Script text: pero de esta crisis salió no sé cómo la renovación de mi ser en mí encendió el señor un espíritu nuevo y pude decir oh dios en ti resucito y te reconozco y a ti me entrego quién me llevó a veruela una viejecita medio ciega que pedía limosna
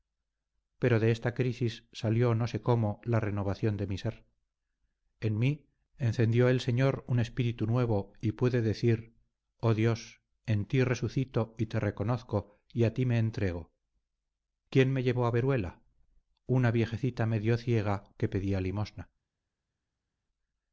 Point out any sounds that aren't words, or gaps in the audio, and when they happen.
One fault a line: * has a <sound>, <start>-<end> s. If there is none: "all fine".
all fine